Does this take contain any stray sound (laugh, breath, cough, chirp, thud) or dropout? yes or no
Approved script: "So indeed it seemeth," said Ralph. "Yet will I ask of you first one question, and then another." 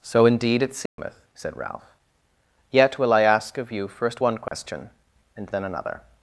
yes